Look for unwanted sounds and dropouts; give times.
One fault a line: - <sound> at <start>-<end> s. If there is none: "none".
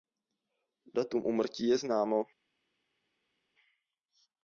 none